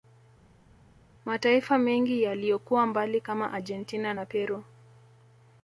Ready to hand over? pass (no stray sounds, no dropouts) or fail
pass